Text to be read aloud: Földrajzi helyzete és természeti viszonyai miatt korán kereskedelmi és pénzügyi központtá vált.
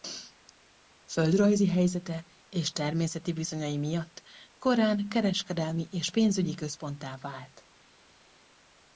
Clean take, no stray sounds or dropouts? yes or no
yes